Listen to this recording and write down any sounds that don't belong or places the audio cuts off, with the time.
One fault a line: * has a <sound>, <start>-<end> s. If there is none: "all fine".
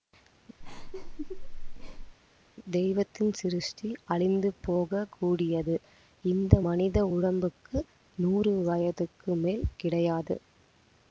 * has a laugh, 0.6-2.2 s